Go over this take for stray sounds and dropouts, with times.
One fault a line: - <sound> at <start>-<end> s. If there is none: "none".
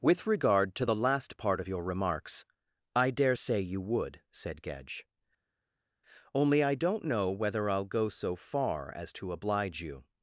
none